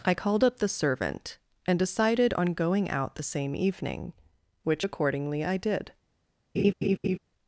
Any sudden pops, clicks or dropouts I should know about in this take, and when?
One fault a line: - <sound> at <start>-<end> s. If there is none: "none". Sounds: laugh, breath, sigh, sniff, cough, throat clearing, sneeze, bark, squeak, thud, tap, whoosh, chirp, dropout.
- laugh at 6.6-7.2 s